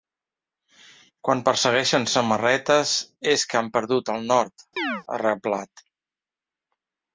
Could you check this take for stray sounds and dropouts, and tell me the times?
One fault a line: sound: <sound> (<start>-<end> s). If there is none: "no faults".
sound: chirp (4.8-5.0 s)